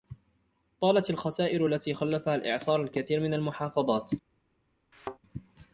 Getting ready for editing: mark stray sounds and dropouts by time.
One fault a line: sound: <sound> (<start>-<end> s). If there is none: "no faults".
sound: thud (4.9-5.2 s)